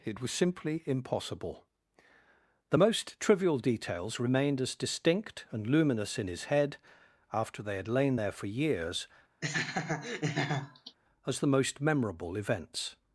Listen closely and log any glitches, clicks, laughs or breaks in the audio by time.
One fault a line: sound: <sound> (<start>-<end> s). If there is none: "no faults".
sound: laugh (9.4-11.0 s)